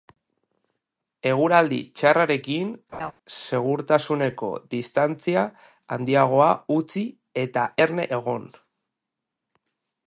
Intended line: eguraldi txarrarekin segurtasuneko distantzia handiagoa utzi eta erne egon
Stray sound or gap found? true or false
true